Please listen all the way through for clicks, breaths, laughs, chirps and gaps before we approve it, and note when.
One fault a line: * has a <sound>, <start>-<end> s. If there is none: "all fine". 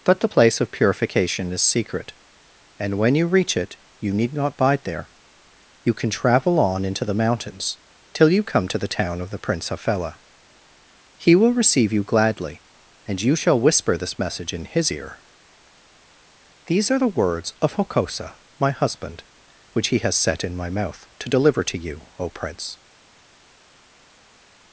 all fine